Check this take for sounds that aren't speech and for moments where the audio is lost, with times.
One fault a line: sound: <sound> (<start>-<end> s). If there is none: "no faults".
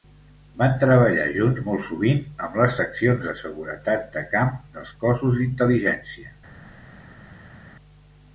no faults